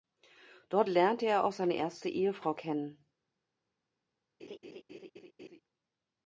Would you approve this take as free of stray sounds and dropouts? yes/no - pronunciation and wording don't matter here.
no